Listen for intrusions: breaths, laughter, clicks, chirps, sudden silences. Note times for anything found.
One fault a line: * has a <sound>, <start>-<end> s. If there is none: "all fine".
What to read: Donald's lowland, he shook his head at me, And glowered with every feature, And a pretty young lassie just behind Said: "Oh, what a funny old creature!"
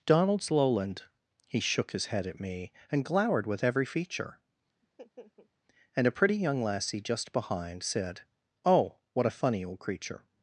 * has a laugh, 4.8-5.5 s